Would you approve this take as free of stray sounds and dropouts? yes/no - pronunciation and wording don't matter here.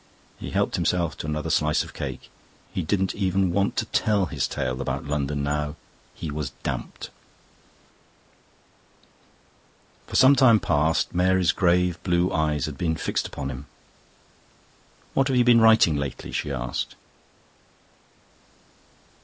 yes